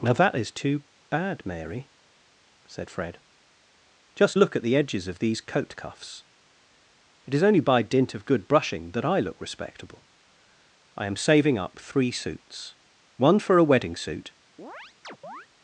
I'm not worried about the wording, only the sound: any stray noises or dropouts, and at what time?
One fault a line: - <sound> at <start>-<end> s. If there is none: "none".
- chirp at 14.6-15.5 s